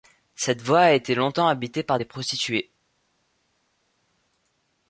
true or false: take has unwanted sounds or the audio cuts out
false